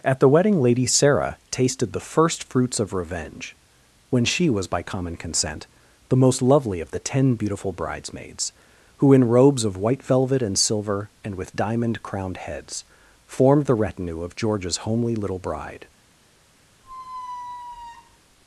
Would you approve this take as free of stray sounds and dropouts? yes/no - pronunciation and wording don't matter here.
no